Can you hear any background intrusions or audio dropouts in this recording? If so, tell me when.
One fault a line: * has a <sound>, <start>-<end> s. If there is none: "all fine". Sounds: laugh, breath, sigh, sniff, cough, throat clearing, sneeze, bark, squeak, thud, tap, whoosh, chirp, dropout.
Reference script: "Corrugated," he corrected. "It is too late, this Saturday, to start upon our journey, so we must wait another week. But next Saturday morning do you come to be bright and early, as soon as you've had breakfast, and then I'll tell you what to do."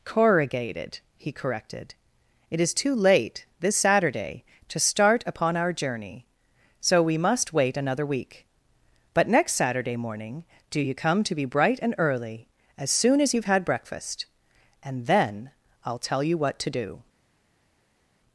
all fine